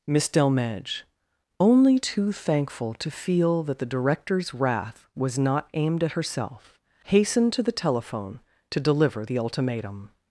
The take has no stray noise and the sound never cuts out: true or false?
true